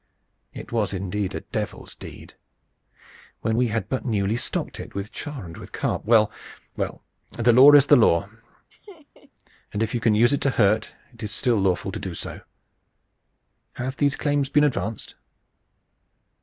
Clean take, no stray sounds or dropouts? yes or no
no